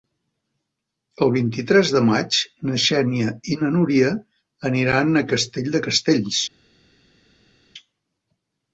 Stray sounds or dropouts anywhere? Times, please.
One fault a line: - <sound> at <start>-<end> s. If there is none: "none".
none